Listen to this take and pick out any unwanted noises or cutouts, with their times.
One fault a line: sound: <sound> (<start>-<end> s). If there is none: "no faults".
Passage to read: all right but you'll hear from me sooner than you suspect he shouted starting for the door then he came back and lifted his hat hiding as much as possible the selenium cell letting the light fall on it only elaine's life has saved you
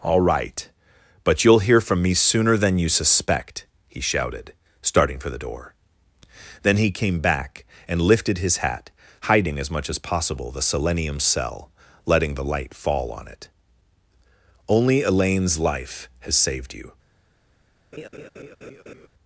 sound: laugh (17.9-19.1 s)